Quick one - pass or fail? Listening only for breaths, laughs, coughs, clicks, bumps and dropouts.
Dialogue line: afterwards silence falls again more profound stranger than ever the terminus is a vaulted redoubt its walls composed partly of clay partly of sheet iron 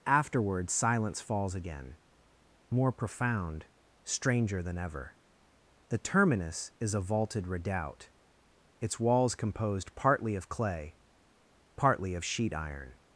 pass